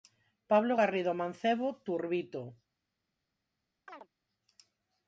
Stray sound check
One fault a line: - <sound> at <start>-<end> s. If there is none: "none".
- chirp at 3.9-4.1 s